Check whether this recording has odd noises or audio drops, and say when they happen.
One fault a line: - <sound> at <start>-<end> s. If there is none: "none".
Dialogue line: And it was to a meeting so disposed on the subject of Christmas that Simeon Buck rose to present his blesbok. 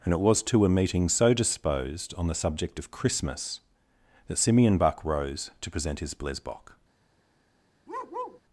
- bark at 7.9-8.4 s